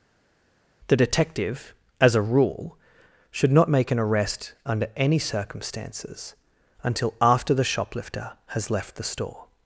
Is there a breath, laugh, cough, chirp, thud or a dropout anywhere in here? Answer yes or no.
no